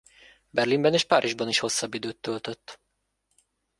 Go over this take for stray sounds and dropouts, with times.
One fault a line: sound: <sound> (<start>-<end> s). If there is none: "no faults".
no faults